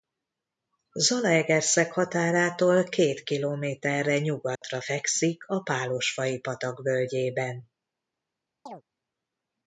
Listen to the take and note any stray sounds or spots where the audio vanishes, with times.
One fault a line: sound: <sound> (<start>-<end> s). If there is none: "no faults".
sound: dropout (4.6-4.6 s)
sound: chirp (8.7-8.8 s)